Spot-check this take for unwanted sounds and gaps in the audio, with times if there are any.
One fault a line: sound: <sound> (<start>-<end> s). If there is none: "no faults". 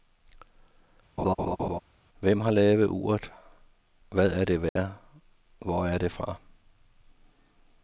sound: laugh (1.2-1.8 s)
sound: dropout (4.7-4.8 s)